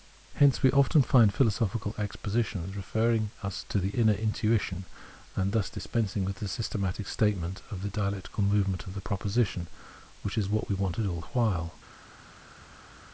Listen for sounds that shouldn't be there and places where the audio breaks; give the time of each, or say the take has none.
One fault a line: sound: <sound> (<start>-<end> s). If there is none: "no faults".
no faults